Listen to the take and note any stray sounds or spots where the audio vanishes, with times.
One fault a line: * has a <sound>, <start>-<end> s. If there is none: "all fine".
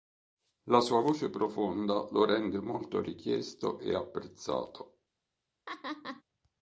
* has a laugh, 5.7-6.2 s